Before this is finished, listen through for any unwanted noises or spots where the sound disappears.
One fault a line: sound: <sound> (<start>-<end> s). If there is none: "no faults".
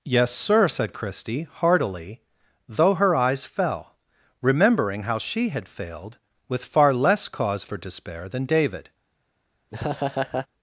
sound: laugh (9.7-10.5 s)